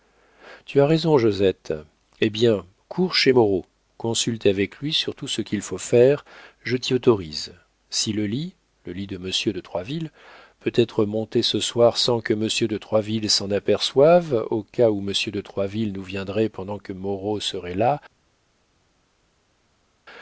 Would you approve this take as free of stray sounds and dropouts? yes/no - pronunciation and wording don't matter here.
yes